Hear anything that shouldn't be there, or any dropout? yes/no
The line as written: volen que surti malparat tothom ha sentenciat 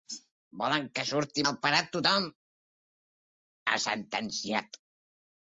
no